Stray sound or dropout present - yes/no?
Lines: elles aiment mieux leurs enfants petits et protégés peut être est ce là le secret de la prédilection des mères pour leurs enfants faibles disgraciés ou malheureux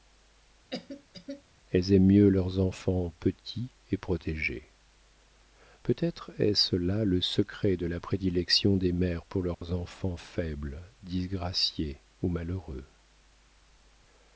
yes